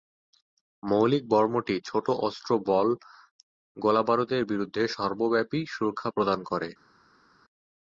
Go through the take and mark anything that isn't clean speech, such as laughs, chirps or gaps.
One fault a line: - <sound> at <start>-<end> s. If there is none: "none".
none